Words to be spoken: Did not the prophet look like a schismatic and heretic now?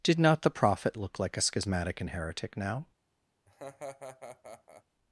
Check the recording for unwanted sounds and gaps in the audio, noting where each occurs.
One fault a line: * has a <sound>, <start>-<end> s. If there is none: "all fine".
* has a laugh, 3.5-4.8 s